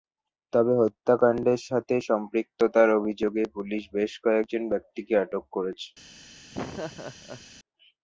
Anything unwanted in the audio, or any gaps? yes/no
yes